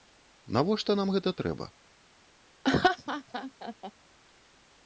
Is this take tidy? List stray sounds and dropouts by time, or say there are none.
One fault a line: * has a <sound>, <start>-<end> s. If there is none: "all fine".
* has a laugh, 2.6-3.9 s